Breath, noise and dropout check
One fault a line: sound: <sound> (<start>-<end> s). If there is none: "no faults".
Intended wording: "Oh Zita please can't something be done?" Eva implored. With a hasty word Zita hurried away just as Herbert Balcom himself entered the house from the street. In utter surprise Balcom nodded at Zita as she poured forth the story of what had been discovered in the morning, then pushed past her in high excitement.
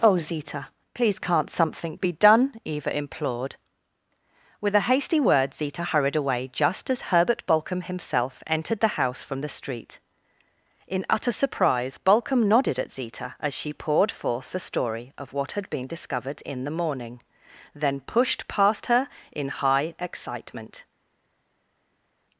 no faults